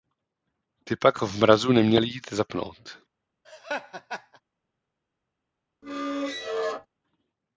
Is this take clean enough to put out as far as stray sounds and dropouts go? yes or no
no